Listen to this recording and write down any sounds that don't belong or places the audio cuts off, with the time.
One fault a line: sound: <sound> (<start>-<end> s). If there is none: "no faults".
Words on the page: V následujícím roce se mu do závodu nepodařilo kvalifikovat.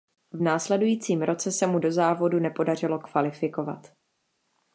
no faults